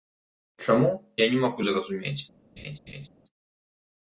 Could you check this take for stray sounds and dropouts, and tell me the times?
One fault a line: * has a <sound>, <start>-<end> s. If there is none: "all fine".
* has a laugh, 2.6-3.1 s